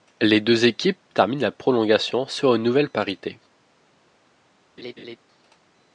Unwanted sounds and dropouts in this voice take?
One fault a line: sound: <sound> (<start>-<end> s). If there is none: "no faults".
sound: laugh (4.8-5.2 s)